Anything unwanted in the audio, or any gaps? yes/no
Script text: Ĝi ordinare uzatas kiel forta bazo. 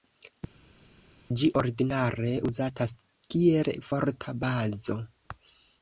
no